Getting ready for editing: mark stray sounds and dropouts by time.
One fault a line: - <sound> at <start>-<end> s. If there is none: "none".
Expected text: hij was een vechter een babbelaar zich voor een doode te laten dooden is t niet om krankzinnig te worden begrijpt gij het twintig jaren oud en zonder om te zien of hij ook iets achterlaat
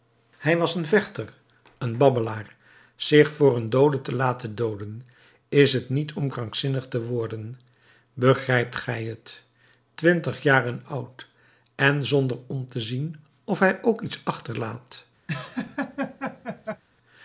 - laugh at 15.3-16.8 s